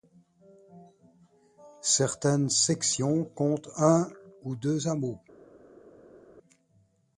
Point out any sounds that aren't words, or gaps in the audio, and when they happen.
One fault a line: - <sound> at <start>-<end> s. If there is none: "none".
none